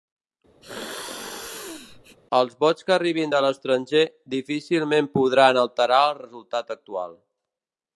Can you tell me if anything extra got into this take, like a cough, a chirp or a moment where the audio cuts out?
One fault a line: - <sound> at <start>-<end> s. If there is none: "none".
- sneeze at 0.6-2.2 s